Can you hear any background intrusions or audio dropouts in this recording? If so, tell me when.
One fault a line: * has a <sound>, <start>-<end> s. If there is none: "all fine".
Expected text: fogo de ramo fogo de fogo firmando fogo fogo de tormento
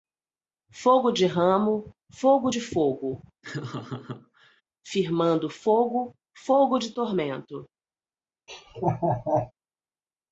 * has a laugh, 3.4-4.6 s
* has a laugh, 8.5-9.5 s